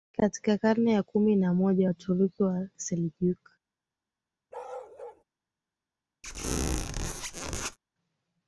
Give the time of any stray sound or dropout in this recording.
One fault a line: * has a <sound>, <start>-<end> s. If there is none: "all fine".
* has a bark, 4.5-5.2 s
* has a squeak, 6.2-7.8 s